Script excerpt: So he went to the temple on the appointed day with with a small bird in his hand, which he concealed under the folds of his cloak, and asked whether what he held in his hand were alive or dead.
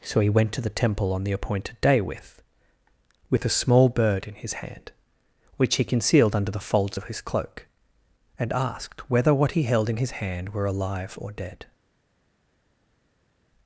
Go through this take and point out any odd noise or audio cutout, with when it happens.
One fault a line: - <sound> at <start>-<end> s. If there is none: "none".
none